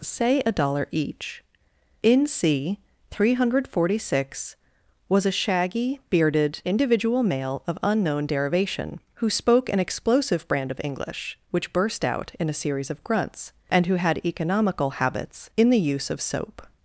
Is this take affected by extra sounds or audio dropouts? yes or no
no